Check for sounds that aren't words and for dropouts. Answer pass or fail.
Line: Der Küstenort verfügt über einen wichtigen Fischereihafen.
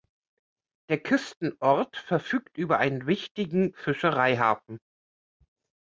pass